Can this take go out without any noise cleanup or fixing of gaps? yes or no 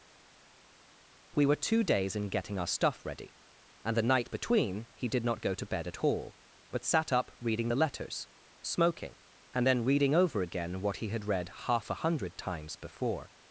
yes